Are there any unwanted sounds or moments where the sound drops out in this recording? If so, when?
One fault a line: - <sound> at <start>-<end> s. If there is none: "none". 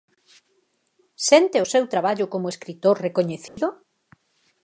- dropout at 3.5-3.6 s